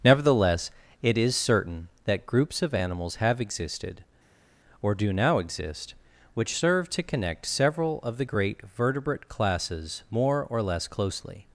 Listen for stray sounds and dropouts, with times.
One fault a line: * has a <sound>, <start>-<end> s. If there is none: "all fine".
all fine